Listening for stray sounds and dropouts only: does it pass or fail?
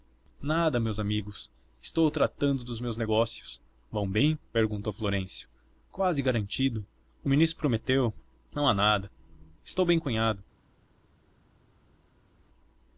pass